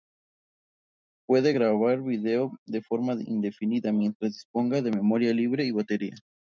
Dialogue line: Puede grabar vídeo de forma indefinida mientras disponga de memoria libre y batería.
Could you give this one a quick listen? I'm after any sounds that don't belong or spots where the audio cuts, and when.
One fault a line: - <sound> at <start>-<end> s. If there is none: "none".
none